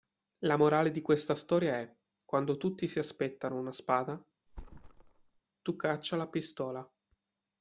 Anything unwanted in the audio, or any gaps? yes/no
yes